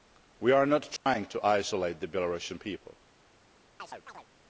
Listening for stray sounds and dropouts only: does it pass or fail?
fail